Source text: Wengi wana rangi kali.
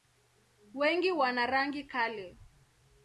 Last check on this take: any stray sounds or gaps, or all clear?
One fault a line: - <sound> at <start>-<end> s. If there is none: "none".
none